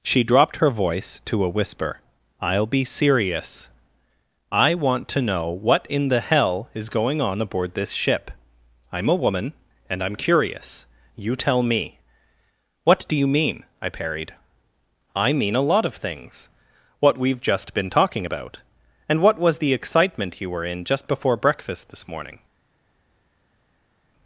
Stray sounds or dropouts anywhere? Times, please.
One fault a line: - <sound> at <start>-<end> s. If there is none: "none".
none